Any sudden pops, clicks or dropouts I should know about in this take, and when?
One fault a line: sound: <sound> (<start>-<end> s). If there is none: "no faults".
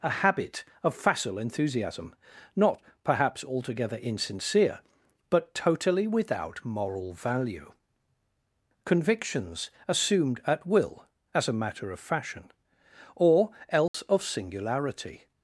sound: dropout (13.9-13.9 s)